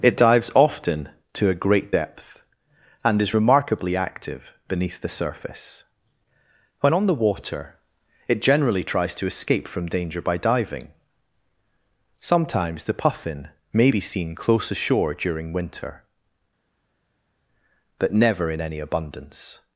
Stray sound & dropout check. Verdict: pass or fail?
pass